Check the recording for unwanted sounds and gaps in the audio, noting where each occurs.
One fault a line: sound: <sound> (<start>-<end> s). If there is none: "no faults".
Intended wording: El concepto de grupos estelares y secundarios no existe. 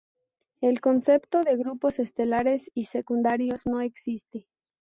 no faults